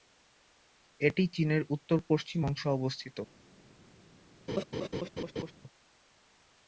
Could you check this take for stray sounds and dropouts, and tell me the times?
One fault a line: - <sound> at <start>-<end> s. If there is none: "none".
- laugh at 4.5-5.5 s